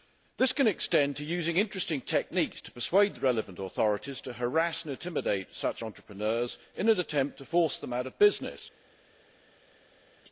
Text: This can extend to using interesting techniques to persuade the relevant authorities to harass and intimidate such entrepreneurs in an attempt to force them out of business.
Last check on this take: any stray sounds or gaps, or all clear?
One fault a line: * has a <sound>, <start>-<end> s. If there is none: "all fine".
all fine